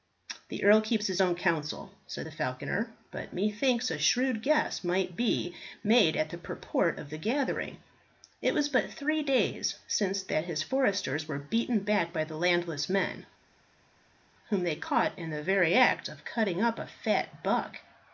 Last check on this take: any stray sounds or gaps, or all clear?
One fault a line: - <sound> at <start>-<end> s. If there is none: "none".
none